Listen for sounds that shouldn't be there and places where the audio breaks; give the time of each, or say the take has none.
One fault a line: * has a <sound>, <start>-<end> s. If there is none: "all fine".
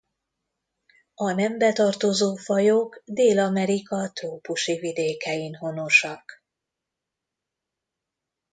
all fine